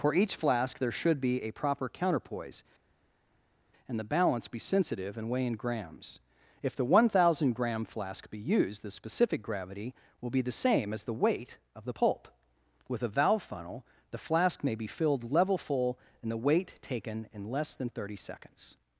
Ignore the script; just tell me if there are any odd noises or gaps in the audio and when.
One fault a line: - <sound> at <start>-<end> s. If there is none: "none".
none